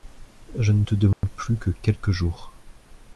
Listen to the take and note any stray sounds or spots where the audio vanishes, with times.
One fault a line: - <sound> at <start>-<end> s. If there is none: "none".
- dropout at 1.1-1.2 s